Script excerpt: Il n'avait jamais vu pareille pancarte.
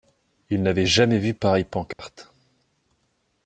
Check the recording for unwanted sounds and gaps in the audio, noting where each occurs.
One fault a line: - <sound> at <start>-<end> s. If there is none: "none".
- dropout at 1.9-2.0 s